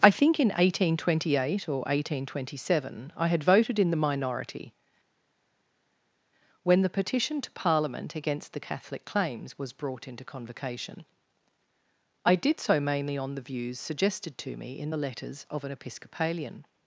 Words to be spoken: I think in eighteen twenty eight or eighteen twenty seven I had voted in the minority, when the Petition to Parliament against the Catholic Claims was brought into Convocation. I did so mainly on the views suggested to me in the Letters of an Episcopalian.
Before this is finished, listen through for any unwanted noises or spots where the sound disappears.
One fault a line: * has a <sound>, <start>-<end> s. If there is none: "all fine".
all fine